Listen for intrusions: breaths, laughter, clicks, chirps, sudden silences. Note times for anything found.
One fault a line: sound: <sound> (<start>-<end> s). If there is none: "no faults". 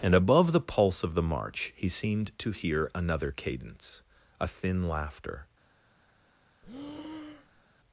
sound: breath (6.6-7.7 s)